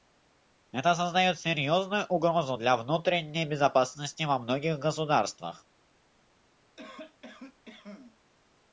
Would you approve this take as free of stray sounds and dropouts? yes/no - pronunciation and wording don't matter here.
no